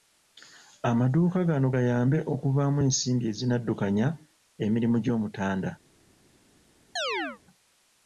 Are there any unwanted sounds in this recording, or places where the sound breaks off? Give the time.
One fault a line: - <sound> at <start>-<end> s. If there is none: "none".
- chirp at 7.0-7.4 s